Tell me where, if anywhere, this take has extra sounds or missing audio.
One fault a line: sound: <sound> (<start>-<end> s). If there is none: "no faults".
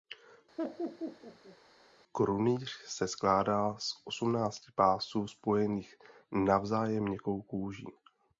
sound: laugh (0.6-1.6 s)